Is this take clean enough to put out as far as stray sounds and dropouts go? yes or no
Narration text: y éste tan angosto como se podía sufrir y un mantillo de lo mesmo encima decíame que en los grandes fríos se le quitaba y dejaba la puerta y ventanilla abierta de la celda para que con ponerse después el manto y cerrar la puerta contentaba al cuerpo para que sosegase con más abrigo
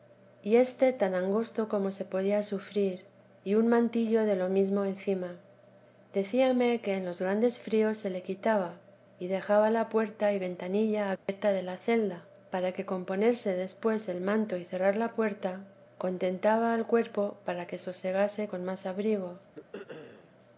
no